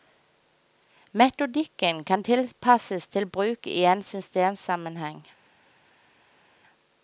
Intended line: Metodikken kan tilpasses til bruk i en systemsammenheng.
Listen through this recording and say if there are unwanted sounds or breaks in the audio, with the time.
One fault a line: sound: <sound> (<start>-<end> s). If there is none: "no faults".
no faults